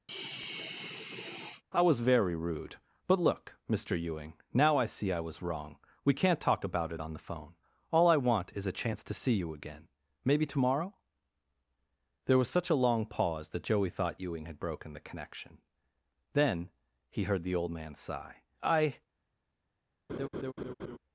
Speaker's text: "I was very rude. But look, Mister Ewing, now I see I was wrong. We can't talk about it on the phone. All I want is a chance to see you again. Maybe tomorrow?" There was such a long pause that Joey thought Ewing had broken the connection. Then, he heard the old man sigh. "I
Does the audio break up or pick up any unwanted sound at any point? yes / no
yes